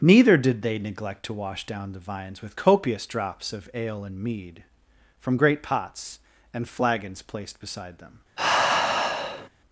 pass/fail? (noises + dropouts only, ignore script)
fail